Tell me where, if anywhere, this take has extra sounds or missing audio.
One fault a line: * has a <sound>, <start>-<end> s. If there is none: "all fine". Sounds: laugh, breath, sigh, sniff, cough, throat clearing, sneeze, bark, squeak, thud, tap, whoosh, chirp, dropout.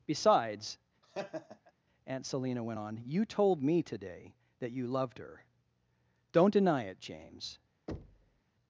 * has a laugh, 1.0-1.7 s
* has a thud, 7.9-8.4 s